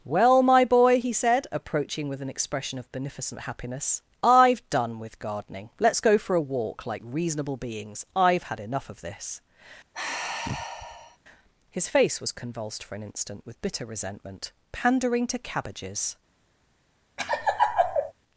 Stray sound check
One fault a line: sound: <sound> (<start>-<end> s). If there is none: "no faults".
sound: sigh (9.9-11.2 s)
sound: laugh (17.2-18.1 s)